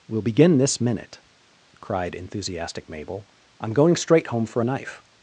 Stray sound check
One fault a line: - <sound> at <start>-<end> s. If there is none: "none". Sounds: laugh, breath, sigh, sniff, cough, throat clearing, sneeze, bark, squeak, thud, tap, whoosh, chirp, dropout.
none